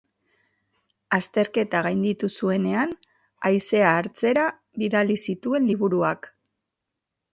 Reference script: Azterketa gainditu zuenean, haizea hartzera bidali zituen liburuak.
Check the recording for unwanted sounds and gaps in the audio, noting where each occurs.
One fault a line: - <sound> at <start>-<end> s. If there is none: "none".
none